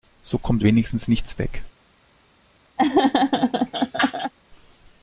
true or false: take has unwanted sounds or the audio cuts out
true